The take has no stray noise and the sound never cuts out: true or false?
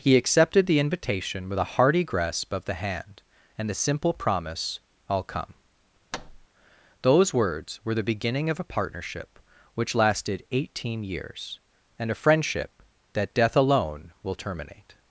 false